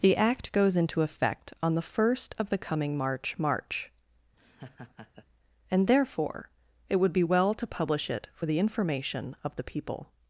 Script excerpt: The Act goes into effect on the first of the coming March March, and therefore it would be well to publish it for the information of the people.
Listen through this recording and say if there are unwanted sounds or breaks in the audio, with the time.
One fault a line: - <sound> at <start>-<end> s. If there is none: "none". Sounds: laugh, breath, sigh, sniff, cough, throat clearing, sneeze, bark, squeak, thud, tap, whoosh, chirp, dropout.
- laugh at 4.4-5.3 s